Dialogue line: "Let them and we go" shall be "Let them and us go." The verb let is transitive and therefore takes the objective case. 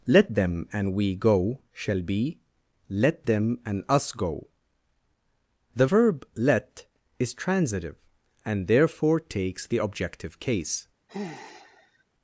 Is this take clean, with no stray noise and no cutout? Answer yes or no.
no